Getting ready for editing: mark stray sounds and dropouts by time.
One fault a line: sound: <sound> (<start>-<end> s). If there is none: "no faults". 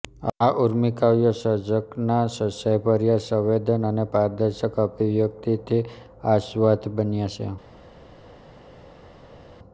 no faults